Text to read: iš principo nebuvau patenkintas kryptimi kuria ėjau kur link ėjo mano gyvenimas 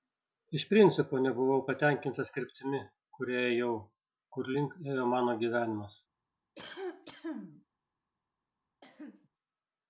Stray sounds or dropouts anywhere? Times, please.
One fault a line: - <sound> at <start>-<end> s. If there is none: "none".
- cough at 6.6-7.7 s
- cough at 8.8-9.3 s